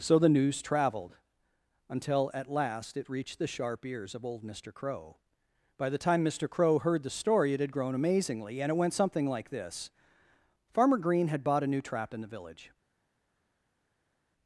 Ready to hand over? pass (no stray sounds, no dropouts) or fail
pass